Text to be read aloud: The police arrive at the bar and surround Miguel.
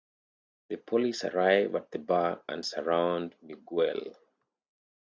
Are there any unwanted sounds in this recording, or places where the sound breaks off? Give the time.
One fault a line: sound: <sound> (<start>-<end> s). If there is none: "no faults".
no faults